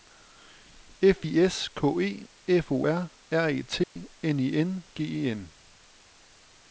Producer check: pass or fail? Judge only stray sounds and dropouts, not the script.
fail